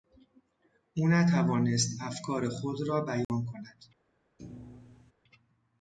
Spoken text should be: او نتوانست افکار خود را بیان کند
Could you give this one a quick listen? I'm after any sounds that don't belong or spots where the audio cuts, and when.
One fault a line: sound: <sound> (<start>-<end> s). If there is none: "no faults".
sound: dropout (3.2-3.3 s)
sound: thud (4.4-5.1 s)